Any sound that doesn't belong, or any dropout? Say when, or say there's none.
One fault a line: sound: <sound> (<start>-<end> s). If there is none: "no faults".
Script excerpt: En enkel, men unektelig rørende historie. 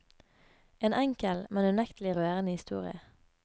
no faults